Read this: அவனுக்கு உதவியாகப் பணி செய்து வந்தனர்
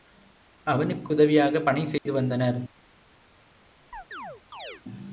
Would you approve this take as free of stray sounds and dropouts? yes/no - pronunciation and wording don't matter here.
no